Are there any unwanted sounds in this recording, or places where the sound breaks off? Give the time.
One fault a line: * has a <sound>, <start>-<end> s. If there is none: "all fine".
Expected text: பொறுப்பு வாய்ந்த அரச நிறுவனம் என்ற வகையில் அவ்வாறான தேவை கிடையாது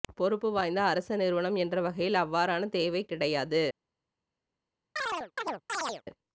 * has a chirp, 5.0-6.0 s